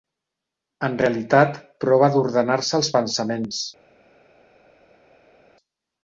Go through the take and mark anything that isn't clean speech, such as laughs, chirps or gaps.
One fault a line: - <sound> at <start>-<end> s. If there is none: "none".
none